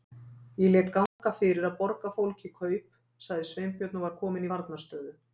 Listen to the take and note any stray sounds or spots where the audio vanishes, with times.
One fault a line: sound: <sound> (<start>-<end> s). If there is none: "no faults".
sound: dropout (1.1-1.2 s)